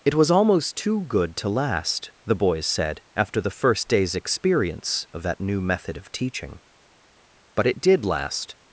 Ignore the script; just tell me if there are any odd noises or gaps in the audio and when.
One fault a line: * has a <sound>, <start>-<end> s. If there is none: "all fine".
all fine